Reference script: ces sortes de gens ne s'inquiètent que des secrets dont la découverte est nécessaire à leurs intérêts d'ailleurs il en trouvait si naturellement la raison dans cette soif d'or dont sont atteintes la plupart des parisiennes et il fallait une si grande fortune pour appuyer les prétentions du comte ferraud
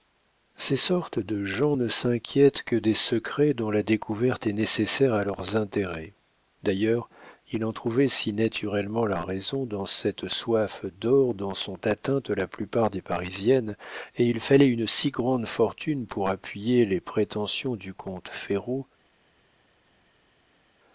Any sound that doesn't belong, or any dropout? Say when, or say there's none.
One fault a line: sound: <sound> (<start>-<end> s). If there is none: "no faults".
no faults